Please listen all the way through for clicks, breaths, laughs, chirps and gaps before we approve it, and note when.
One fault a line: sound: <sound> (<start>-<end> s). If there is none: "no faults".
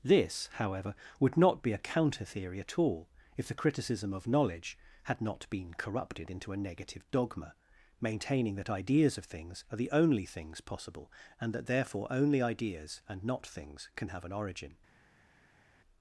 no faults